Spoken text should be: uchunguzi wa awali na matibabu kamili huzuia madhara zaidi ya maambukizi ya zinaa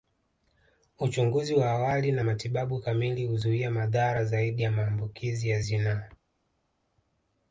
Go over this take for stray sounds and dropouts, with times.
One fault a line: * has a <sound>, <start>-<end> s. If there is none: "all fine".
all fine